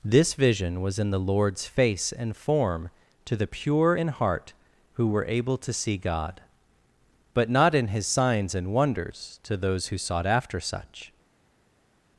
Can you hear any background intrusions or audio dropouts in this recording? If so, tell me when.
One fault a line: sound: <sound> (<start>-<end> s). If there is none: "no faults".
no faults